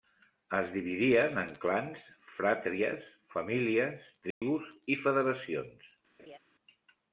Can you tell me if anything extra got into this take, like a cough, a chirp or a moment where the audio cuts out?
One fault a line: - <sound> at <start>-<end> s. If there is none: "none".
- dropout at 4.3-4.4 s
- laugh at 6.2-6.4 s